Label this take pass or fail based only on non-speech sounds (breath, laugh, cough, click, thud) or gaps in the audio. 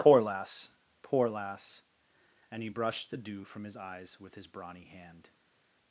pass